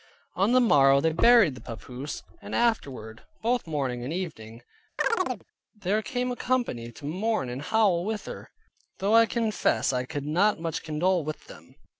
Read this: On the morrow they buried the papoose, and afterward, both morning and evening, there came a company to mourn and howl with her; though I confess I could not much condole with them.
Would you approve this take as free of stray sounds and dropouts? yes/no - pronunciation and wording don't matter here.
no